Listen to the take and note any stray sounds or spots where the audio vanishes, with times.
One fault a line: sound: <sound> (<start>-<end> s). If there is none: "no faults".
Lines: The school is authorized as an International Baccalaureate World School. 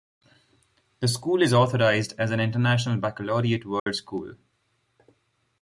sound: dropout (3.8-3.9 s)